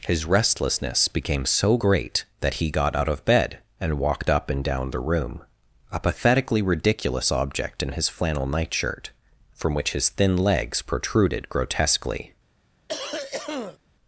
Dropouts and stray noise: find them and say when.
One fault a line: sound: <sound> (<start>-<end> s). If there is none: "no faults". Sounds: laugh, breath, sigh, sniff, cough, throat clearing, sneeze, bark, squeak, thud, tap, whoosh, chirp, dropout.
sound: cough (12.9-13.8 s)